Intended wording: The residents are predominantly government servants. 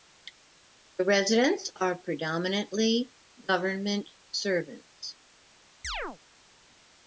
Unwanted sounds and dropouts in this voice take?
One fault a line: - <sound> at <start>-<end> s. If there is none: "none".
- chirp at 5.8-6.2 s